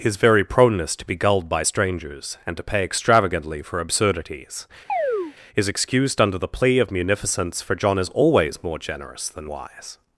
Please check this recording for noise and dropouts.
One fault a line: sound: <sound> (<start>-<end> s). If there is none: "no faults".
sound: chirp (4.9-5.3 s)